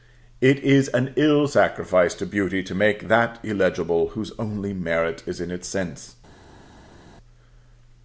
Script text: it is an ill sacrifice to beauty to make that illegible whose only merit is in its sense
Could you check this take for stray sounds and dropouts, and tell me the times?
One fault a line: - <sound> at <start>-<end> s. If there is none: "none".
none